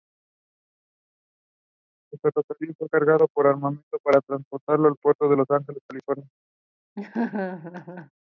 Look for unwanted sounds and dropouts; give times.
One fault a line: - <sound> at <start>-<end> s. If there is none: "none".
- laugh at 7.0-8.1 s